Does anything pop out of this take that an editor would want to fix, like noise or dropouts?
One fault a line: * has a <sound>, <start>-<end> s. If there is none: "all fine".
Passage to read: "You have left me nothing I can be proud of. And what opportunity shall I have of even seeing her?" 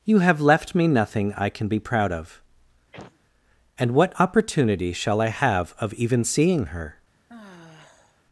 * has a sneeze, 2.9-3.2 s
* has a sigh, 7.3-8.2 s